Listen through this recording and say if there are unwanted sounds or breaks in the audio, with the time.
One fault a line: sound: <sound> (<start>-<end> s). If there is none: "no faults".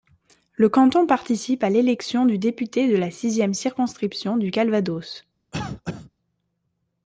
sound: cough (5.5-6.1 s)